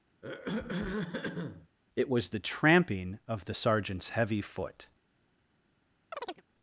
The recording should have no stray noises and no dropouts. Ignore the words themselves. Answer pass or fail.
fail